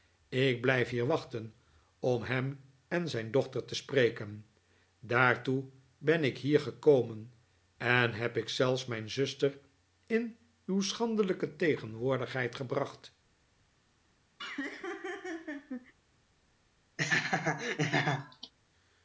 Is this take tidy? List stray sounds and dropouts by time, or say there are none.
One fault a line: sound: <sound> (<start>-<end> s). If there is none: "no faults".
sound: laugh (14.4-15.9 s)
sound: laugh (17.0-18.5 s)